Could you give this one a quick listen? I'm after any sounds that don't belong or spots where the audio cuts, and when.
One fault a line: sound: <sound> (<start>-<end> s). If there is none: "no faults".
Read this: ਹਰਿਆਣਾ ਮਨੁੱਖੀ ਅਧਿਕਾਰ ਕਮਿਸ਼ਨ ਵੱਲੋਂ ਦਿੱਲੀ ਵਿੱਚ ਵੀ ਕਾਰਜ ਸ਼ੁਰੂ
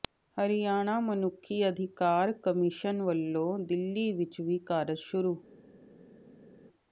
no faults